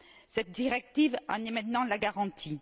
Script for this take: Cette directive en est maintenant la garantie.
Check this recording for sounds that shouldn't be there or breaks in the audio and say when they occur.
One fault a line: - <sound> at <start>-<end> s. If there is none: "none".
none